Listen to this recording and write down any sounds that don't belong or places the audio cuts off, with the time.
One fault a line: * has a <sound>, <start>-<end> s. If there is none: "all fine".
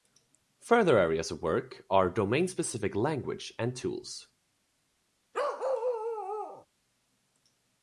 * has a bark, 5.3-6.7 s